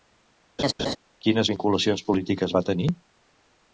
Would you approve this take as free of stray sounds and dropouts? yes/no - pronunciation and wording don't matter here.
no